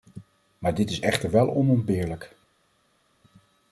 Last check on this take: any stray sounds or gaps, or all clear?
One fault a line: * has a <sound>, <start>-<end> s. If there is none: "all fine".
all fine